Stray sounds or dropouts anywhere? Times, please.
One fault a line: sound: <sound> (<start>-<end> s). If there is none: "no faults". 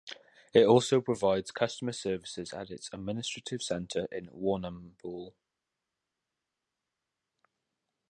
no faults